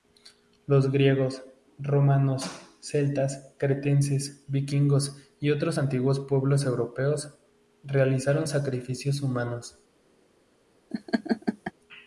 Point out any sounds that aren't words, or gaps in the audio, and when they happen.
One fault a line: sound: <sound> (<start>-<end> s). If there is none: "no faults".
sound: laugh (10.9-11.7 s)